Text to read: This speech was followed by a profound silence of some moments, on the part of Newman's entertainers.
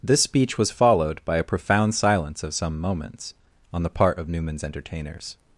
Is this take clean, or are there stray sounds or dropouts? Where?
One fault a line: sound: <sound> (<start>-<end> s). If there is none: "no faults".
no faults